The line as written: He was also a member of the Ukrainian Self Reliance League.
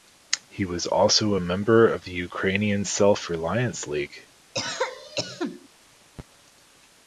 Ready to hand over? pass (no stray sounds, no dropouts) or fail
fail